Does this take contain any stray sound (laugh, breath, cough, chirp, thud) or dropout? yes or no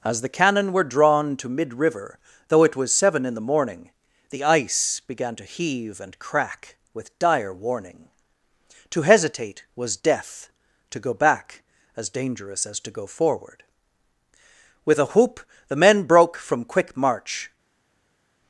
no